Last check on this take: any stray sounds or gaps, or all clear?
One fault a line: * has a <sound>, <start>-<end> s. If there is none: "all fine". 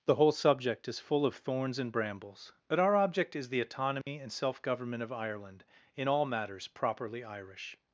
* has a dropout, 4.0-4.1 s